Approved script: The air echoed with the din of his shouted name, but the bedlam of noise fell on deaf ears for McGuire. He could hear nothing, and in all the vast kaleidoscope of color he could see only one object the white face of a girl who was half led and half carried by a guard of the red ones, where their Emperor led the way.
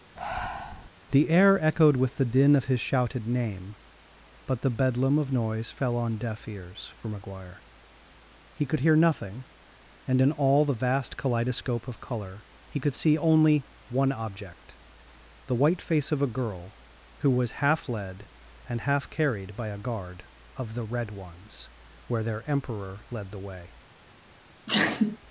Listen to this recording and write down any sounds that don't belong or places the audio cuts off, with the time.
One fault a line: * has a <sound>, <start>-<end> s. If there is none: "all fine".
* has a breath, 0.2-0.9 s
* has a sneeze, 24.7-25.2 s